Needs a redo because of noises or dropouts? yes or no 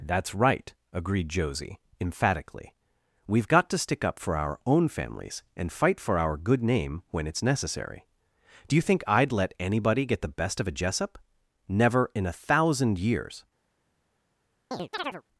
yes